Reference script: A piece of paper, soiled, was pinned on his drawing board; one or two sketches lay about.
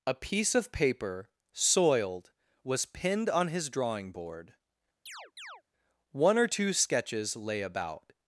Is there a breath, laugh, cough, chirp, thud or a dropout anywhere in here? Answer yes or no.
yes